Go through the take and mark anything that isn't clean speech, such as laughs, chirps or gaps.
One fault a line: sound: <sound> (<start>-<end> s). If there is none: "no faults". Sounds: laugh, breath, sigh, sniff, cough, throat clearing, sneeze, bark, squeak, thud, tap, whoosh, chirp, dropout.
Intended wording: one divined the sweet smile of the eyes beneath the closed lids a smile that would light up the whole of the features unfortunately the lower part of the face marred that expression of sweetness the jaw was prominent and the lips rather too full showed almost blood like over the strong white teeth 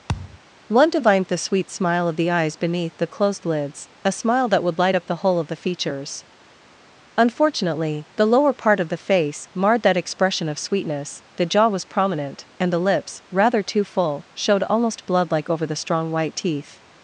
sound: thud (0.1-0.4 s)